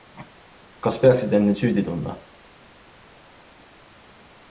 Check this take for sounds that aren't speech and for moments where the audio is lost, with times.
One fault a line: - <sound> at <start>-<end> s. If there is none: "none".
none